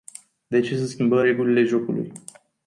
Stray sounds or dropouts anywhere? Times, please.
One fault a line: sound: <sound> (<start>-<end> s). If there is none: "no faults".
no faults